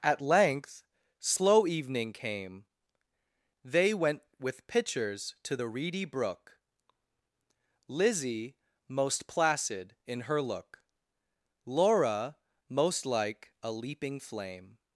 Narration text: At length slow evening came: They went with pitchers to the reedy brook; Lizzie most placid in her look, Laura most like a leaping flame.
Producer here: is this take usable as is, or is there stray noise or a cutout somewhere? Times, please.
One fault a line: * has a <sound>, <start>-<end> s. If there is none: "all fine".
all fine